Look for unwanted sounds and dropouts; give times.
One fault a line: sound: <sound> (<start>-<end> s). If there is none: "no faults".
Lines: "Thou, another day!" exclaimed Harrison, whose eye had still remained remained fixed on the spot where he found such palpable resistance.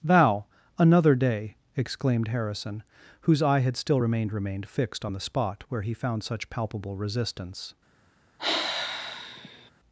sound: sigh (8.4-9.7 s)